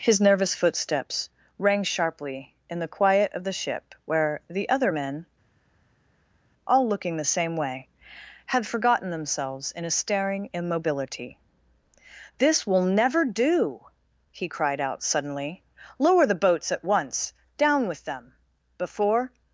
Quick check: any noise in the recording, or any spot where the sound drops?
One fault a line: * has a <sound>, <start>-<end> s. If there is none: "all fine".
all fine